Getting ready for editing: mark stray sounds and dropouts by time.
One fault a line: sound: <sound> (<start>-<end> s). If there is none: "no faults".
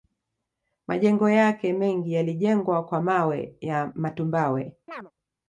sound: chirp (4.9-5.1 s)